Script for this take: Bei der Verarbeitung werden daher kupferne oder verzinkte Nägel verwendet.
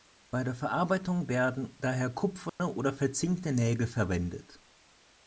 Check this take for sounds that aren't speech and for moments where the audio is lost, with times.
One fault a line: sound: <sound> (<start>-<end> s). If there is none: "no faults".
sound: dropout (2.5-2.6 s)